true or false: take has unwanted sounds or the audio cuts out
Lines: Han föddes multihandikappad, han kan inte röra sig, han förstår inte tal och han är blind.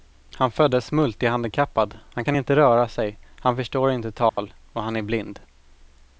true